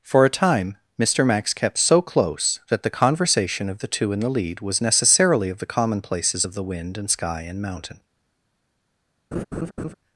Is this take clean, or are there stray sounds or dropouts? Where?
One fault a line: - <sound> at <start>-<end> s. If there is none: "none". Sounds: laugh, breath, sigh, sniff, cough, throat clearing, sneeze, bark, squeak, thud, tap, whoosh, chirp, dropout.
- laugh at 9.3-9.9 s